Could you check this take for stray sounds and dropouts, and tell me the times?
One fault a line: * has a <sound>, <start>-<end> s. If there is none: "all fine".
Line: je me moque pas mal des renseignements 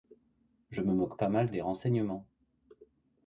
all fine